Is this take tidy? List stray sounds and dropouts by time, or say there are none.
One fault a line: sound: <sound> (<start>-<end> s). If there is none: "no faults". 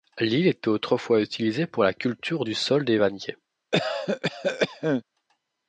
sound: cough (3.7-5.0 s)